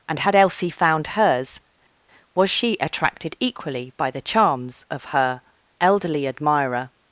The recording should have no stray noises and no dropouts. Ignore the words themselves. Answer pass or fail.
pass